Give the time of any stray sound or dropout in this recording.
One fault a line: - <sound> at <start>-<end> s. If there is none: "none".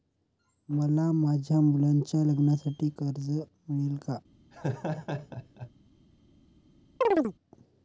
- laugh at 4.5-5.7 s
- chirp at 7.0-7.3 s